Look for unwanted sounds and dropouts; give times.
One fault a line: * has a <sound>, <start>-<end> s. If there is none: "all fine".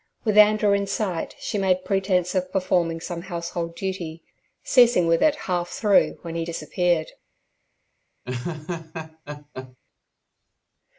* has a laugh, 8.3-9.8 s